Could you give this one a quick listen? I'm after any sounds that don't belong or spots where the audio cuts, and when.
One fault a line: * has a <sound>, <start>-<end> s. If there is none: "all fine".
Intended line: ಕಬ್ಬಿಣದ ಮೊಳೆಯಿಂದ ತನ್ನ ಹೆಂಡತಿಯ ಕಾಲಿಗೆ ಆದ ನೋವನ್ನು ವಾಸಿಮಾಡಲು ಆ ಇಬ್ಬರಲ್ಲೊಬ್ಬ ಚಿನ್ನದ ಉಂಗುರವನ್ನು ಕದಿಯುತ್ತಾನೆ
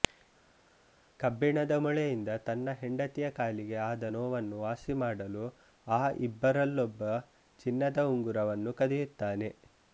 all fine